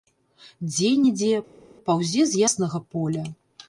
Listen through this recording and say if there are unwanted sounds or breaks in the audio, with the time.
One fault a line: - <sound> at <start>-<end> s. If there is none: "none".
none